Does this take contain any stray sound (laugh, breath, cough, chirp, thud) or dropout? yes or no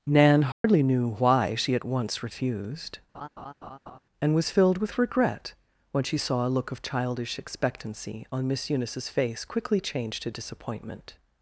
yes